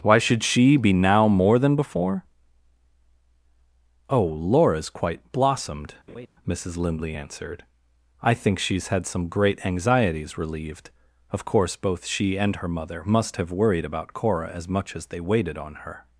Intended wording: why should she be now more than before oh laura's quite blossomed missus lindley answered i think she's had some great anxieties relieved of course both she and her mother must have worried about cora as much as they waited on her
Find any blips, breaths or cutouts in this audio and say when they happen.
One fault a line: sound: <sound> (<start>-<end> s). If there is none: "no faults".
sound: laugh (6.1-6.3 s)